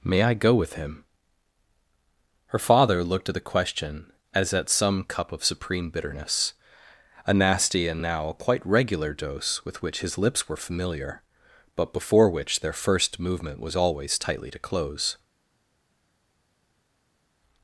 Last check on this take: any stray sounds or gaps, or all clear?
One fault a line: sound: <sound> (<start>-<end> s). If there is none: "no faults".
no faults